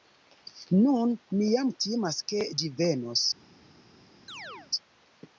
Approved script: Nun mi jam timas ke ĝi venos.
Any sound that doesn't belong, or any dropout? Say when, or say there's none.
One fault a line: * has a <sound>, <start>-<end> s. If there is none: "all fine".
* has a chirp, 4.3-4.7 s